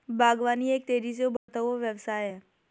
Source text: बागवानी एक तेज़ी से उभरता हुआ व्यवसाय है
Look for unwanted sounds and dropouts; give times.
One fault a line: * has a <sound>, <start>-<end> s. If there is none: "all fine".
* has a dropout, 1.4-1.5 s